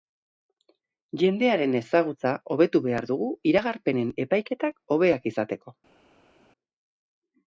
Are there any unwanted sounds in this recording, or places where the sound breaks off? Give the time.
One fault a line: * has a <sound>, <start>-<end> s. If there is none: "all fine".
all fine